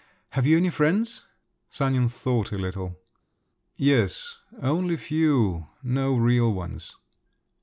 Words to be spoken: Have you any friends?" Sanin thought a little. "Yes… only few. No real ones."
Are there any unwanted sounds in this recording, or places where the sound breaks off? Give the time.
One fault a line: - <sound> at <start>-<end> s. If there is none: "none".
none